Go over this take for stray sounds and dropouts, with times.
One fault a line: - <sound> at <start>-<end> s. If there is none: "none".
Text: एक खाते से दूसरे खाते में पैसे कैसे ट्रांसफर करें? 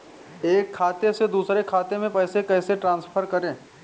none